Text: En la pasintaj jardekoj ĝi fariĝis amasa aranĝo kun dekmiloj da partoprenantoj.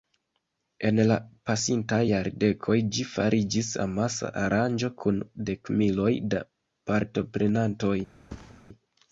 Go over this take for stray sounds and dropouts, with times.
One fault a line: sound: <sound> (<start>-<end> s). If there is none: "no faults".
sound: thud (8.3-8.7 s)